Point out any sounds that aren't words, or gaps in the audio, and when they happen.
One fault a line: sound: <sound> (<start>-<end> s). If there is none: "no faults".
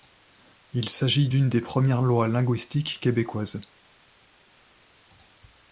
no faults